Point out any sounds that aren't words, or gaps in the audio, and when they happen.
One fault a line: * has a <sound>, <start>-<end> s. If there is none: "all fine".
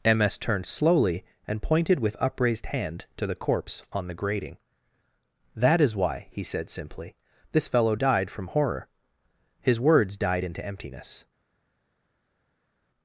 all fine